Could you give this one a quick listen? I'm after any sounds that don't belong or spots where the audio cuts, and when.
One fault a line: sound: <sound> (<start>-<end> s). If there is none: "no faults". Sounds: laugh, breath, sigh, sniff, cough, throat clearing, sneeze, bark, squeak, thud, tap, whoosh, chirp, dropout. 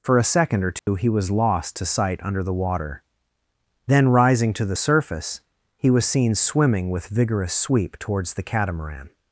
sound: dropout (0.8-0.9 s)